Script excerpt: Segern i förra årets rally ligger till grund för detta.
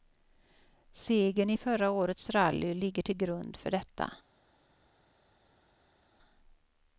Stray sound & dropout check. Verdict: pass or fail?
pass